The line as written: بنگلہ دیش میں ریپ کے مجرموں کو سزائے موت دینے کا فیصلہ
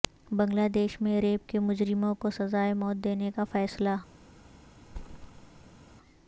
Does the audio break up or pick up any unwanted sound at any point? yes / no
yes